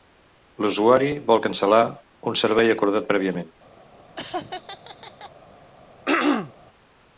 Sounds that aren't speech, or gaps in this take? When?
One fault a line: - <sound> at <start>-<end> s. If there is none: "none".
- laugh at 4.2-5.3 s
- throat clearing at 6.1-6.5 s